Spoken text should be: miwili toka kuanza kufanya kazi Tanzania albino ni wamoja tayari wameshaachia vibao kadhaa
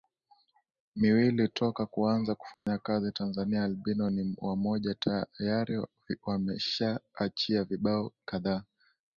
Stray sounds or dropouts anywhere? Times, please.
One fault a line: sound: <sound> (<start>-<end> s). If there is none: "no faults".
sound: dropout (2.5-2.7 s)